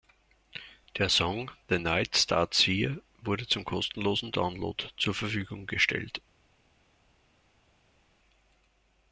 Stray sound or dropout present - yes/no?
no